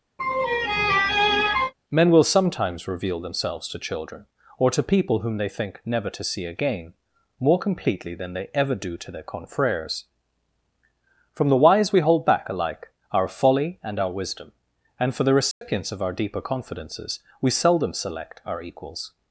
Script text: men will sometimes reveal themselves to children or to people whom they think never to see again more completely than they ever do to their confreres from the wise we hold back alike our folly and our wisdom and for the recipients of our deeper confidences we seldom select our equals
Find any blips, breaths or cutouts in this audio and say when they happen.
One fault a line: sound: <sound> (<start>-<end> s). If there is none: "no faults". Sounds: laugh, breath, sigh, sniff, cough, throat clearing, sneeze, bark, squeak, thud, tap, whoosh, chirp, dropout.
sound: laugh (0.2-1.7 s)
sound: dropout (15.5-15.6 s)